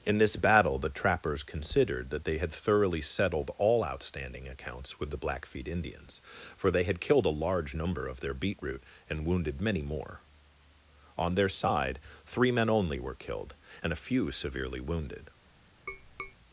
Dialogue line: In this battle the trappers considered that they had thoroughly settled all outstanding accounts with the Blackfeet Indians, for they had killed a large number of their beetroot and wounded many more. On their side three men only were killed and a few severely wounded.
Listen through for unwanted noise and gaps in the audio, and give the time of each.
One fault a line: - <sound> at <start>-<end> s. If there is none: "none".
- tap at 15.9-16.4 s